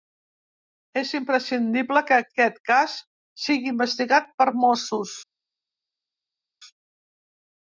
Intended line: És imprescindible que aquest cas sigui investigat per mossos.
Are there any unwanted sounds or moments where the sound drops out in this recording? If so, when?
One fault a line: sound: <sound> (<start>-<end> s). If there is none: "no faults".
no faults